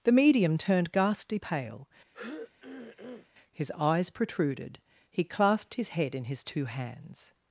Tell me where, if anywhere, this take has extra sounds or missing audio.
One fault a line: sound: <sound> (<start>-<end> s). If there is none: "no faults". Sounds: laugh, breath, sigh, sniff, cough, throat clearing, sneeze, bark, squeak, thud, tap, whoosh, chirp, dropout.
sound: throat clearing (2.1-3.3 s)